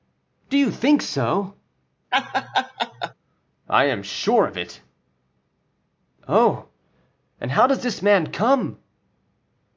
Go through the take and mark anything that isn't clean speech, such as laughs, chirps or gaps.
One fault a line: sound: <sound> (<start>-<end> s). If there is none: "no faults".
sound: laugh (2.1-3.1 s)